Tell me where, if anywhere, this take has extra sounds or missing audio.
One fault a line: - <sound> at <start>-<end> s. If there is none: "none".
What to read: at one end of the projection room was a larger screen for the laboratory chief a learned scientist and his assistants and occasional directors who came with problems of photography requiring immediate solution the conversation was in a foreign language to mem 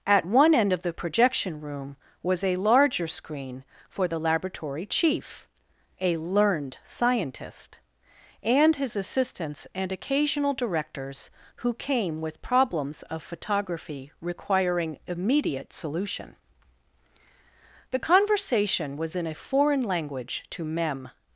none